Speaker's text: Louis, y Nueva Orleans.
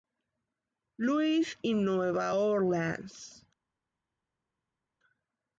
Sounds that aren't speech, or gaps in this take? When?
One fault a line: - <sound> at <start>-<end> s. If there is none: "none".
none